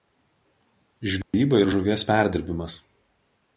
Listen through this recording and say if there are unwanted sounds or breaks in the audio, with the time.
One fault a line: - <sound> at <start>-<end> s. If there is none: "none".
- dropout at 1.2-1.3 s